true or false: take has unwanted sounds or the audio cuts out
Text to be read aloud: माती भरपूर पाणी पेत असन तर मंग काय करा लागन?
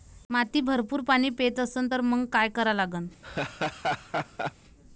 true